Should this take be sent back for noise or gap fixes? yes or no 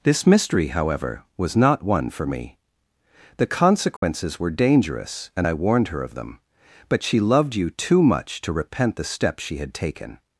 yes